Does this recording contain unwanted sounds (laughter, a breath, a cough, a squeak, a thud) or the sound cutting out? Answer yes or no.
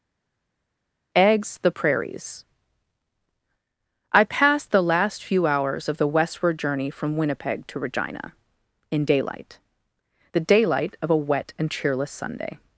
no